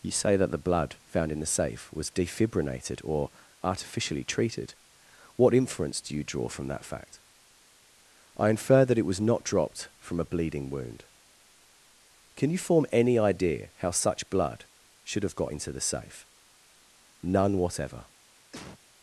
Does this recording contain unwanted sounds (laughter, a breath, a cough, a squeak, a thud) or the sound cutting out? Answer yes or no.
yes